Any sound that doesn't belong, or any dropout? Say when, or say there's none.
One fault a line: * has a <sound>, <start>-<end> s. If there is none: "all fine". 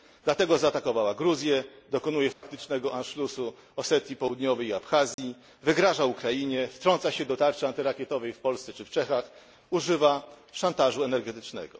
* has a dropout, 2.3-2.4 s
* has a dropout, 5.1-5.2 s